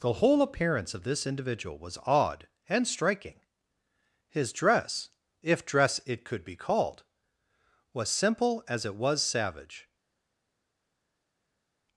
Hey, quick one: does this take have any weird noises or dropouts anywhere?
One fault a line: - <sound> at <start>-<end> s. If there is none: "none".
none